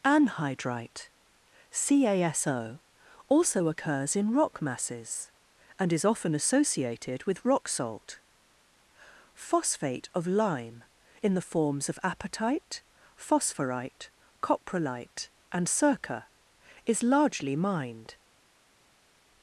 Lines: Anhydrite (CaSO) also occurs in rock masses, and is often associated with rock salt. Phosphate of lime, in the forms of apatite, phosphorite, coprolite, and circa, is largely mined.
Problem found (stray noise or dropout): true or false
false